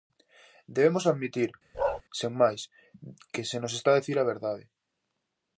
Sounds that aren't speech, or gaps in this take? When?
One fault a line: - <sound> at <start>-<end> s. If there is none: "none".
- bark at 1.7-2.0 s